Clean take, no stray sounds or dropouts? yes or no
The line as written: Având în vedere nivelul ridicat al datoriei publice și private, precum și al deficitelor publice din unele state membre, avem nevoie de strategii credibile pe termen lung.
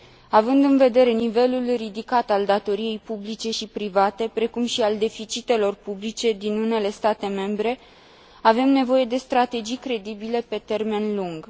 yes